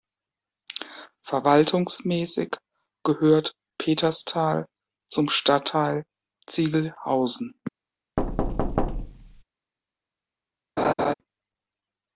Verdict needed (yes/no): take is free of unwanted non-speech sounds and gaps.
no